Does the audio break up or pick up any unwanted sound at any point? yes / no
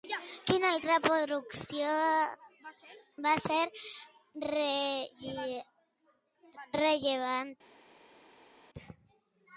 no